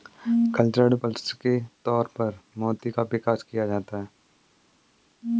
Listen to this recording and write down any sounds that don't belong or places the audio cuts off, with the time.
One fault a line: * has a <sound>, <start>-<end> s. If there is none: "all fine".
all fine